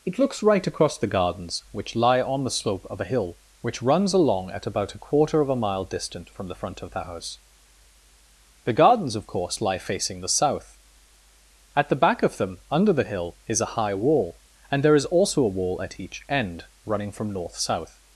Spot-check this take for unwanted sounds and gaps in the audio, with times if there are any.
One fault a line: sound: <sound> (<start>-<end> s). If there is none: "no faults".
no faults